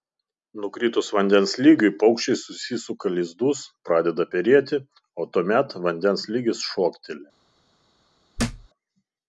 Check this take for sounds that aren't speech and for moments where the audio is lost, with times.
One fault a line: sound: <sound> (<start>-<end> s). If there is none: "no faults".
sound: thud (8.4-8.7 s)